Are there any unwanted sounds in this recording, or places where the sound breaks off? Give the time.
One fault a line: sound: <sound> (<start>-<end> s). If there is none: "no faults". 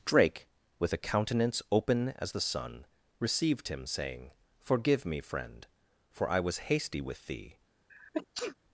sound: sneeze (7.9-8.6 s)